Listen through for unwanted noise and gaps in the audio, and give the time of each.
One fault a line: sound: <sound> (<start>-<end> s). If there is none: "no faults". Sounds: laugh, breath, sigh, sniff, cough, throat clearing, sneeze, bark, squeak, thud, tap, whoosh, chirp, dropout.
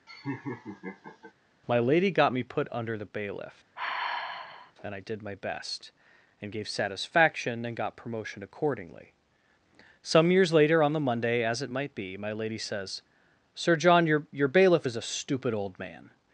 sound: laugh (0.1-1.3 s)
sound: sigh (3.8-4.7 s)